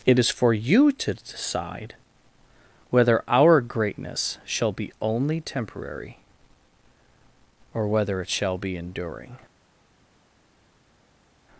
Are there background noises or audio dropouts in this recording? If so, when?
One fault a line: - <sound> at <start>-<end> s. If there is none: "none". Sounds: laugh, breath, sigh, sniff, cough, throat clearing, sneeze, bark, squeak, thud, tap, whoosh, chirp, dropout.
none